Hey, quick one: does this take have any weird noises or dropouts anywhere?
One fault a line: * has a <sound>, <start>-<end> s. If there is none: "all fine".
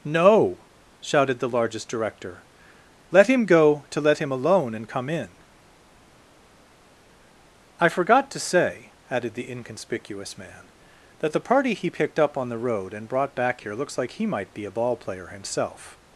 all fine